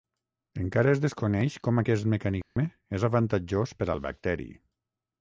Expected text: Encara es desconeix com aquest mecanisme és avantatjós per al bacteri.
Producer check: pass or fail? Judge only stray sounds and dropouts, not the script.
fail